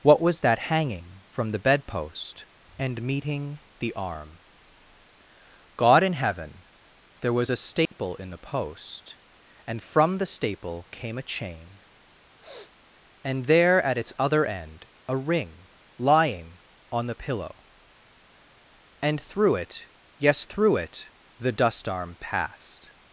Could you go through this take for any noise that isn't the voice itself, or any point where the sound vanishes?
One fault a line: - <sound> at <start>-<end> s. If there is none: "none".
- dropout at 7.9-7.9 s
- sniff at 12.4-12.7 s